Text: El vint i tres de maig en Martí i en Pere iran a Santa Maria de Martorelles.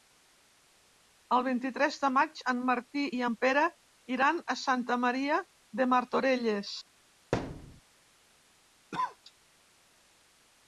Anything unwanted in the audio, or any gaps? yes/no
yes